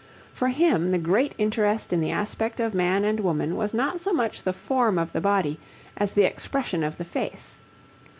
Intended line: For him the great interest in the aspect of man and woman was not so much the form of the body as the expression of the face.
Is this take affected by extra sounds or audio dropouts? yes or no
no